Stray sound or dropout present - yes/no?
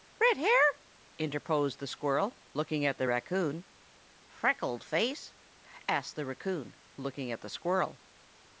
no